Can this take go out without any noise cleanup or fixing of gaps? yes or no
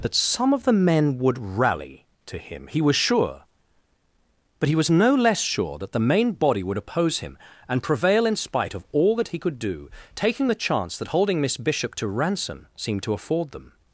yes